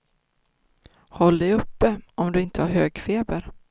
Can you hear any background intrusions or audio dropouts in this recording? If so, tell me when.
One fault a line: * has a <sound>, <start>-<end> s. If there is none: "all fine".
all fine